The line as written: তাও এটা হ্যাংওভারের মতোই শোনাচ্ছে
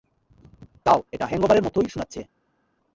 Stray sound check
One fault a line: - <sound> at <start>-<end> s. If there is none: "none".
none